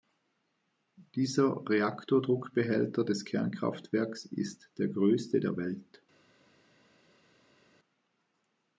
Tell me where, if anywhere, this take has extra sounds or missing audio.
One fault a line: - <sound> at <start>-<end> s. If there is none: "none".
none